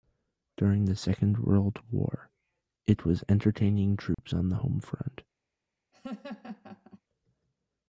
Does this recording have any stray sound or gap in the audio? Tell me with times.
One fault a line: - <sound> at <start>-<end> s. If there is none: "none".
- dropout at 4.1-4.2 s
- laugh at 5.9-7.0 s